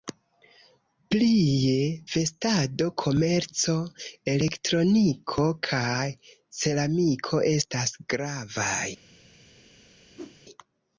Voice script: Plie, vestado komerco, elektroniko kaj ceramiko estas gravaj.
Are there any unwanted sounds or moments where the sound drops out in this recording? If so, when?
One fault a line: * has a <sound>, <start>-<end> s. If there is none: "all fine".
* has a whoosh, 10.2-10.4 s